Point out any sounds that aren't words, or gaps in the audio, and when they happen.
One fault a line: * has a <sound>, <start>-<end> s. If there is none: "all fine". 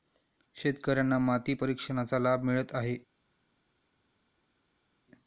all fine